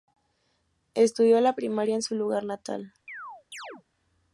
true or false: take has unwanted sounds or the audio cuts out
true